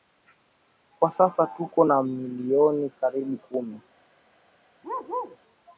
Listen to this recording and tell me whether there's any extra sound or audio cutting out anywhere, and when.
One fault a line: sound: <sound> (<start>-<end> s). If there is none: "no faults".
sound: bark (4.8-5.4 s)